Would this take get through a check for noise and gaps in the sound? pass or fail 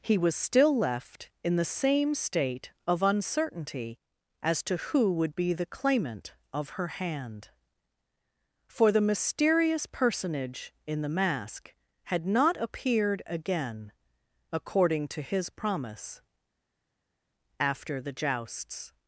pass